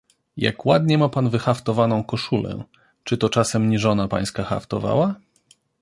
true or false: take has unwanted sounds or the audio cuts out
false